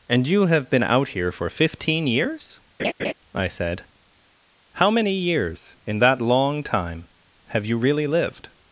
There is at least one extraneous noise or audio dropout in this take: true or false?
true